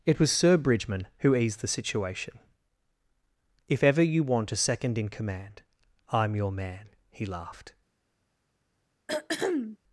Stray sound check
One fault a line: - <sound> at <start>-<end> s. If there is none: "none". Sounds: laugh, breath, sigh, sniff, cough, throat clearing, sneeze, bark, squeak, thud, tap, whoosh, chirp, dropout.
- throat clearing at 9.1-9.8 s